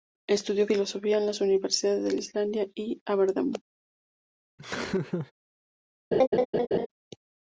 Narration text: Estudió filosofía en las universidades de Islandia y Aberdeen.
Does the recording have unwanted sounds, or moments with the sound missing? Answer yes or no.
yes